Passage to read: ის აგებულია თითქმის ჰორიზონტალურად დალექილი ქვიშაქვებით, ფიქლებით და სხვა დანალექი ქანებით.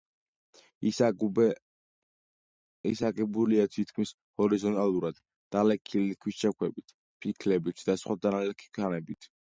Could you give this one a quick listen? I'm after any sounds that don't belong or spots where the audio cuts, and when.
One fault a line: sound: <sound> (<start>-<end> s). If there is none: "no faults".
no faults